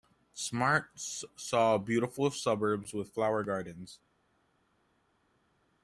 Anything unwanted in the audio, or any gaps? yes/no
no